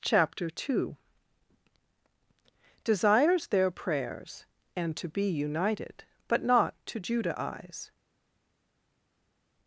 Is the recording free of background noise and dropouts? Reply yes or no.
yes